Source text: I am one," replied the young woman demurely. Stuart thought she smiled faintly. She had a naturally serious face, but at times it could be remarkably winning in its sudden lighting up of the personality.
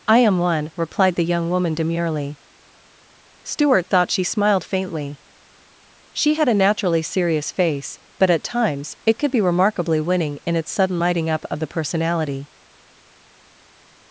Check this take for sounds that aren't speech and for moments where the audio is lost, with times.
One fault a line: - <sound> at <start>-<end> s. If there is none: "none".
none